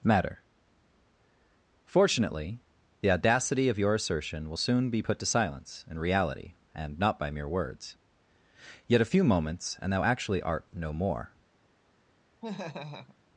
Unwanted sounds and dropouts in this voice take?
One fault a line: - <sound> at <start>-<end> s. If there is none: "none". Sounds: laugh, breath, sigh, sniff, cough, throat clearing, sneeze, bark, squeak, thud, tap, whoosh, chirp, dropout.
- laugh at 12.4-13.2 s